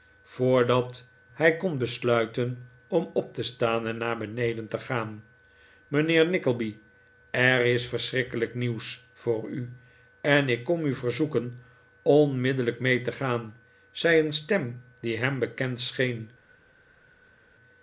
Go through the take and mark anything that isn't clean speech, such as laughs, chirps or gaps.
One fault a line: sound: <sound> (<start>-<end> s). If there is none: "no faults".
no faults